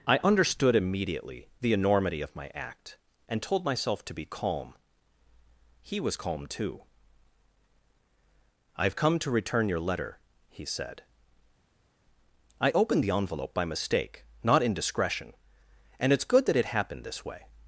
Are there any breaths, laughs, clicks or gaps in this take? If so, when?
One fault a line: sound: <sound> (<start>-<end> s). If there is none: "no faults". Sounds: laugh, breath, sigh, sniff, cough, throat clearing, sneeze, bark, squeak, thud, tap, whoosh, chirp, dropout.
no faults